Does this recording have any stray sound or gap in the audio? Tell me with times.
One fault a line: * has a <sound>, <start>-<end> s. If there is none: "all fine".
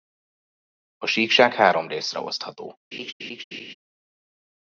* has a laugh, 2.9-3.7 s